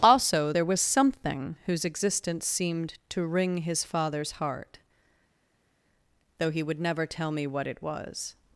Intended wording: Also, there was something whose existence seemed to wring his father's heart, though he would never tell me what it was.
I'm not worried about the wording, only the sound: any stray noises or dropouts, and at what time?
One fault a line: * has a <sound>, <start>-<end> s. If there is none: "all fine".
all fine